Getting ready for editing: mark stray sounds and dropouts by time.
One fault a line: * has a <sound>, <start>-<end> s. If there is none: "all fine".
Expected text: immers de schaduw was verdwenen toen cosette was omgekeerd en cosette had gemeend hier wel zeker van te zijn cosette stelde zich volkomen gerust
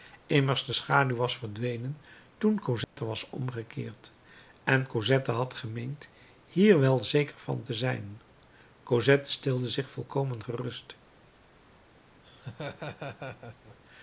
* has a dropout, 2.8-3.0 s
* has a laugh, 12.2-13.8 s